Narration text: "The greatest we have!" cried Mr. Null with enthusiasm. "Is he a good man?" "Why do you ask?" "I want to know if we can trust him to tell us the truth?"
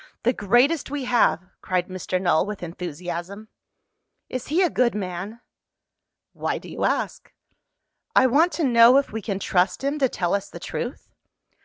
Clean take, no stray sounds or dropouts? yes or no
yes